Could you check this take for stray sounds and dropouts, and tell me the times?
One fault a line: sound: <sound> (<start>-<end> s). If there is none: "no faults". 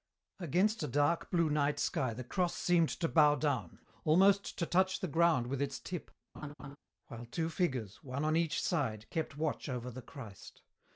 sound: laugh (6.3-6.8 s)